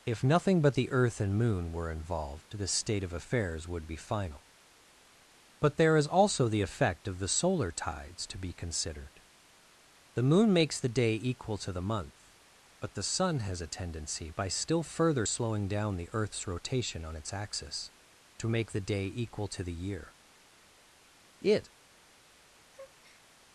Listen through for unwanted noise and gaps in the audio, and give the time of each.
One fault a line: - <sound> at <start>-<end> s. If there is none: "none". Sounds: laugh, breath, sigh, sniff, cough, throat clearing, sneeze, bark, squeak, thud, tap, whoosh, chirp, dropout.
- breath at 22.7-23.2 s